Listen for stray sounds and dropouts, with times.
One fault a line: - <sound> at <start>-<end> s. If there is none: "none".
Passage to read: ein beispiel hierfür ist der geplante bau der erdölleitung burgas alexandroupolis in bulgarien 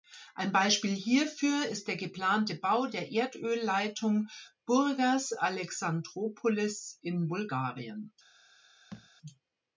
- thud at 8.9-9.1 s